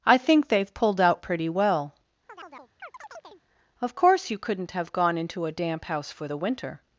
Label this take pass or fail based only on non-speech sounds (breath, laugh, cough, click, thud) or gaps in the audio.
fail